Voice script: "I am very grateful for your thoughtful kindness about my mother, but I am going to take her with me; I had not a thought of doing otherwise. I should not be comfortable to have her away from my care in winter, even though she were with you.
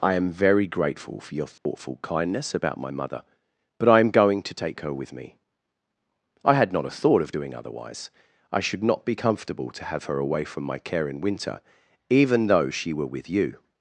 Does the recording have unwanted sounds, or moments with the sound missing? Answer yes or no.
yes